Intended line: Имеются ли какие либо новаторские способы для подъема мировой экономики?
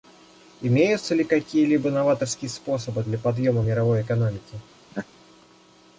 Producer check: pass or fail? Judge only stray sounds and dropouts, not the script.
fail